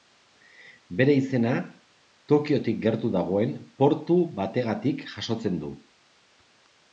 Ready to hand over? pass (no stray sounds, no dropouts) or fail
pass